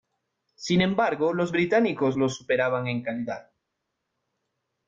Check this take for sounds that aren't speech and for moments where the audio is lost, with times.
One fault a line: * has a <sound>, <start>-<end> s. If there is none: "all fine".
all fine